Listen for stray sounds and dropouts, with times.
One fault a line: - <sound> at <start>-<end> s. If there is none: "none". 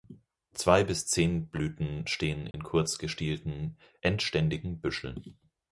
- dropout at 2.5-2.5 s